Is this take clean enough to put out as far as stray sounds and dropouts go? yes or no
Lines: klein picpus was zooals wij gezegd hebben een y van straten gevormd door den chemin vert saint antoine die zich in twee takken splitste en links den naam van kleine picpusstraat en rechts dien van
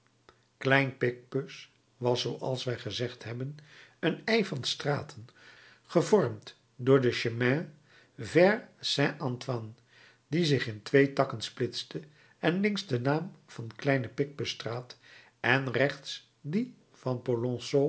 yes